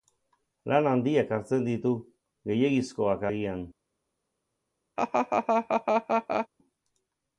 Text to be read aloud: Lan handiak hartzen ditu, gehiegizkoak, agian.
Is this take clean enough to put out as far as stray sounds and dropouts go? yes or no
no